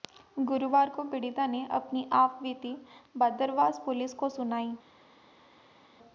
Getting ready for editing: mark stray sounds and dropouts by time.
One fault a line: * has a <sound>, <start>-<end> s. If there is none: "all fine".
all fine